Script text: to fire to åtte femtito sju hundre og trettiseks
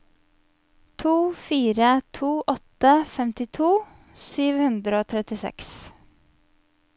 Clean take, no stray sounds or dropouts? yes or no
yes